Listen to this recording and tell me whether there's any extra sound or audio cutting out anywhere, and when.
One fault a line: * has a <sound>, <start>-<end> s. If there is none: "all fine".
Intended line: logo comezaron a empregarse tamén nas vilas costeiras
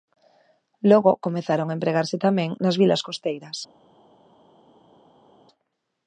all fine